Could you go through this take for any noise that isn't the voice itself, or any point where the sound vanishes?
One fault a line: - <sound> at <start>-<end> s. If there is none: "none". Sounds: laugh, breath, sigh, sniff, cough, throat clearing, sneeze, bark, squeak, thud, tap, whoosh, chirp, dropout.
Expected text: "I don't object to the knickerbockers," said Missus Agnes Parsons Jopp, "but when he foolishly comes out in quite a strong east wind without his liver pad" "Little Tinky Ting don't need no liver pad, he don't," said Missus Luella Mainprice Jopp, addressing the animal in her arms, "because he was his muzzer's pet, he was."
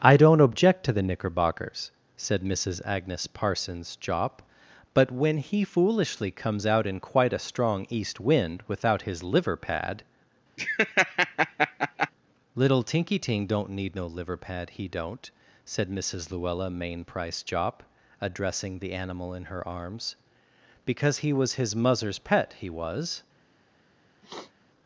- laugh at 10.6-12.1 s
- sniff at 24.2-24.5 s